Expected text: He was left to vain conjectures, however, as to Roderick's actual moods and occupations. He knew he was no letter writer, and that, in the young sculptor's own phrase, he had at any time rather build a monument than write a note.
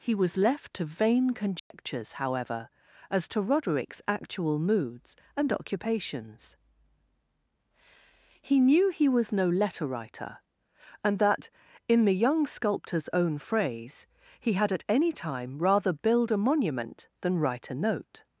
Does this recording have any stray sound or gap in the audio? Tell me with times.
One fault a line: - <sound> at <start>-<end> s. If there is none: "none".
- dropout at 1.6-1.7 s